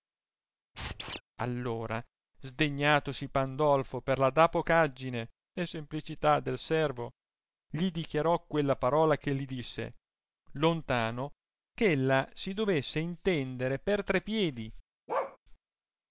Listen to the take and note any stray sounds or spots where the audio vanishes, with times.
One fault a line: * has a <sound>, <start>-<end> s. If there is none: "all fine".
* has a squeak, 0.7-1.2 s
* has a bark, 15.1-15.4 s